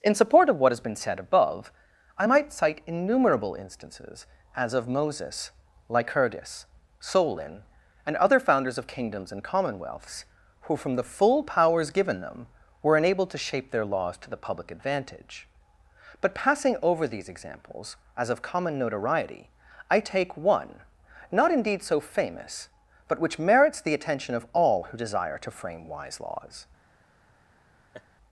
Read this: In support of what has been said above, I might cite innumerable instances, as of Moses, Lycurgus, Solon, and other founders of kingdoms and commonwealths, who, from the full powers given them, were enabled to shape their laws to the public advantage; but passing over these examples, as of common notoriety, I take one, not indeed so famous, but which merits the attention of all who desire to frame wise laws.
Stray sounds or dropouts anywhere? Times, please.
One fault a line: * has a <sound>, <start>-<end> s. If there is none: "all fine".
* has a laugh, 27.9-28.1 s